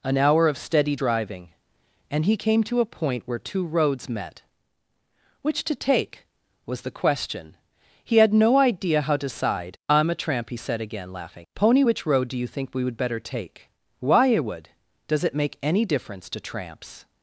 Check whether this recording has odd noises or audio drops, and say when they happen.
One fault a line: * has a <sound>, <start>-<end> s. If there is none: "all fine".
all fine